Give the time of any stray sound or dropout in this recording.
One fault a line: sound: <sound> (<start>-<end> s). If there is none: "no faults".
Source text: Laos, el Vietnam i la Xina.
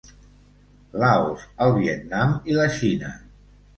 no faults